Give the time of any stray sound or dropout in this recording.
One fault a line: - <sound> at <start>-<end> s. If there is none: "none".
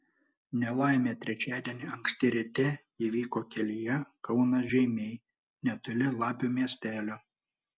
none